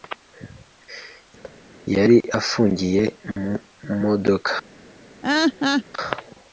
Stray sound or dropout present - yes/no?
yes